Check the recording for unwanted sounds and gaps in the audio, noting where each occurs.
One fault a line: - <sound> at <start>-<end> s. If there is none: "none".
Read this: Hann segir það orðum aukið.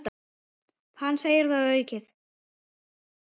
none